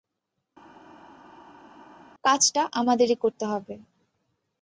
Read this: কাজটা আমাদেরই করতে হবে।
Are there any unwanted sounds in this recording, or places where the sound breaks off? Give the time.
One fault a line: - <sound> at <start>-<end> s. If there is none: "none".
none